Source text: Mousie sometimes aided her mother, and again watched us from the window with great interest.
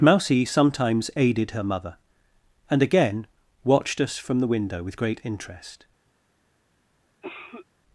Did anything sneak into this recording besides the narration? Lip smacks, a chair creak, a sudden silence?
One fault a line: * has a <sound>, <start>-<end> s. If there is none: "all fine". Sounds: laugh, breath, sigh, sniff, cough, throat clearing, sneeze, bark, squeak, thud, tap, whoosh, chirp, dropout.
* has a cough, 7.2-7.7 s